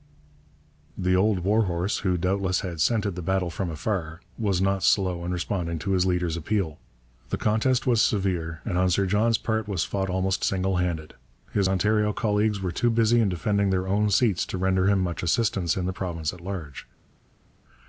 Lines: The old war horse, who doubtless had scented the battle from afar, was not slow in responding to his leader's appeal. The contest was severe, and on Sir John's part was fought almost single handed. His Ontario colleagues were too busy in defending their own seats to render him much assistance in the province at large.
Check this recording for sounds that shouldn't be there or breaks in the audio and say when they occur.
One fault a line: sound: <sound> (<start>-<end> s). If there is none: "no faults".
no faults